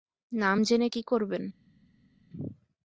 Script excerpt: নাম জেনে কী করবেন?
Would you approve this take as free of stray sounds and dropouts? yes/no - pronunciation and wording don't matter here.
yes